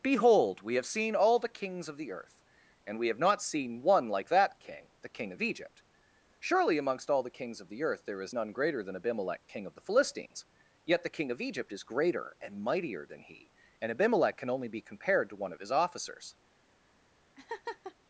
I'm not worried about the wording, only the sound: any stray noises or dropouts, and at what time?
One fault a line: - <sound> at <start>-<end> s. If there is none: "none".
- laugh at 17.4-18.0 s